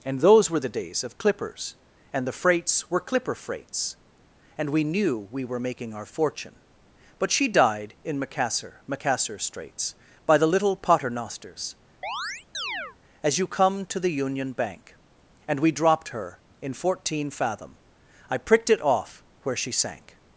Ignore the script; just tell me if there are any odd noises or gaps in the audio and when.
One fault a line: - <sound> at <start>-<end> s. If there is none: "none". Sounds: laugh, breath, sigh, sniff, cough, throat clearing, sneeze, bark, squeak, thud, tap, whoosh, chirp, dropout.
- chirp at 12.0-13.0 s